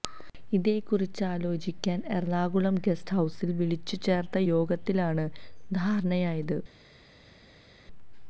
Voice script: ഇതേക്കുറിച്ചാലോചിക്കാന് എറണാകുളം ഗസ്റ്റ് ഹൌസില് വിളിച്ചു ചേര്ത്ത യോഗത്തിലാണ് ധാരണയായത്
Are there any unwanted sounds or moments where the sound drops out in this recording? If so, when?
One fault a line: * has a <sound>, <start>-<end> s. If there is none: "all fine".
all fine